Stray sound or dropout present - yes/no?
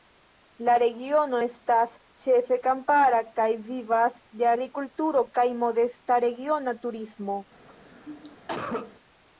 yes